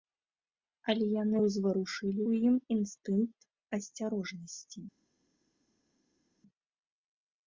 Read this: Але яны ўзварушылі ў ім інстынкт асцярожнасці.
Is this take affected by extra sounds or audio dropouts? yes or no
no